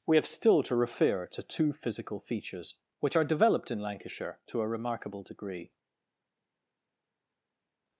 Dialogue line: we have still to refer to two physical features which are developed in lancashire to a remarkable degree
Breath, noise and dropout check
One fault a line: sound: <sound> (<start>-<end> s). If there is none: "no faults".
no faults